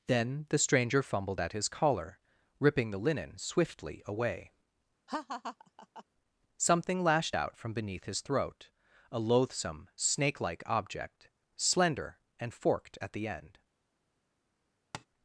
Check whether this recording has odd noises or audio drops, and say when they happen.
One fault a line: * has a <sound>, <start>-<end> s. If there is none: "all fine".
* has a laugh, 5.1-6.0 s
* has a tap, 14.9-15.1 s